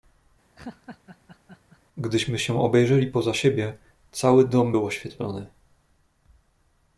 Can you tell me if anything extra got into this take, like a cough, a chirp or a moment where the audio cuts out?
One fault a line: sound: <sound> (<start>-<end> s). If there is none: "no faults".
sound: laugh (0.6-1.8 s)